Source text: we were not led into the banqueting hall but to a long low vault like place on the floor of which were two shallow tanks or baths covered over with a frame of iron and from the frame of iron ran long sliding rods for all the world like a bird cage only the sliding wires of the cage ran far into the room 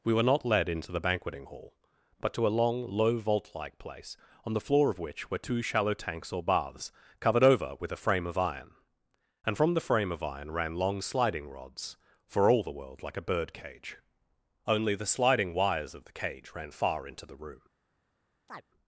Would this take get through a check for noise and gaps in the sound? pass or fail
fail